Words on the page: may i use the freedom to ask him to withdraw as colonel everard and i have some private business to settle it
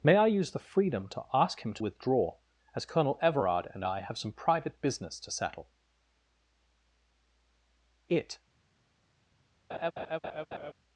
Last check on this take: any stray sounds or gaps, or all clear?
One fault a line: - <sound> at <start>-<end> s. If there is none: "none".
- laugh at 9.7-10.7 s